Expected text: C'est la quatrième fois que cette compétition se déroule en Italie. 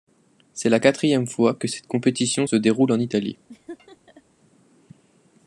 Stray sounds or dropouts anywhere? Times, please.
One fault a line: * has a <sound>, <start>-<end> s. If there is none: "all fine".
* has a laugh, 3.5-4.2 s